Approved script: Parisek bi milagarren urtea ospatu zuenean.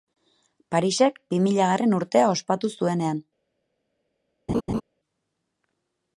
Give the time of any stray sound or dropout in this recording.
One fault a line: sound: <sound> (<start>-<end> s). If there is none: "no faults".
sound: laugh (4.5-4.8 s)